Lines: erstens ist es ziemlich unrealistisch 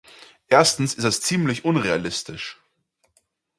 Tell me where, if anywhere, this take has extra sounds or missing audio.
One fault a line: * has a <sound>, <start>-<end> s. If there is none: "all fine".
all fine